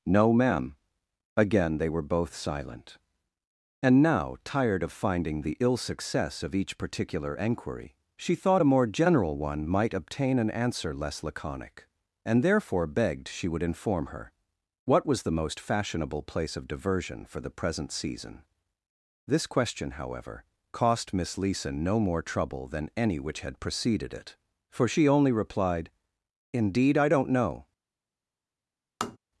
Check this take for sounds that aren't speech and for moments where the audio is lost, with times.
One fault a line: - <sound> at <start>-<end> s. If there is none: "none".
- tap at 29.0-29.2 s